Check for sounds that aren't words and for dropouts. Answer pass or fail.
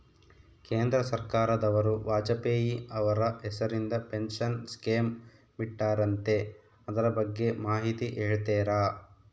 pass